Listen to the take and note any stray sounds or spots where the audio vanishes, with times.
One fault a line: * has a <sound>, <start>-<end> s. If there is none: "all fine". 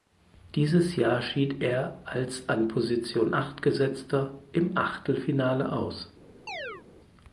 * has a chirp, 6.5-6.8 s